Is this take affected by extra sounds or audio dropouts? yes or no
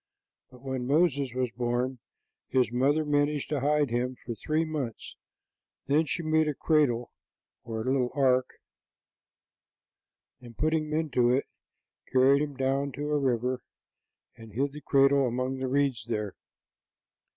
no